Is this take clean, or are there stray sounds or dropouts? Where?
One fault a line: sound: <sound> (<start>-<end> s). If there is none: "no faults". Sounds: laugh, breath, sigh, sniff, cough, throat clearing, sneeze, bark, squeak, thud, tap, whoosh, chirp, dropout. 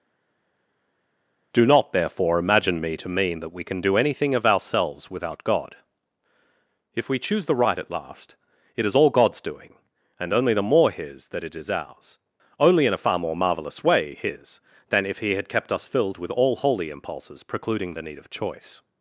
no faults